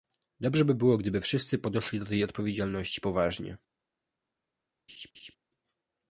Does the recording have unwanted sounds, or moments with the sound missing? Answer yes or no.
yes